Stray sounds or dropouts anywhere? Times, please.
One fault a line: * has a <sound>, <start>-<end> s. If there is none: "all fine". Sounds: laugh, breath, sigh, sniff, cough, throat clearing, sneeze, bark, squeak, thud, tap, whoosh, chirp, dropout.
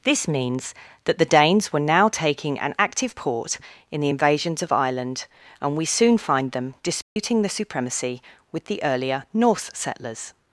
* has a dropout, 7.0-7.2 s